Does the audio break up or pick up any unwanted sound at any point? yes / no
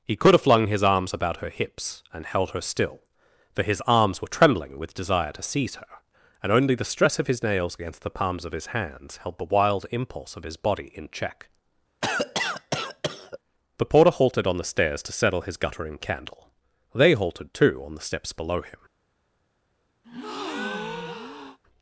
yes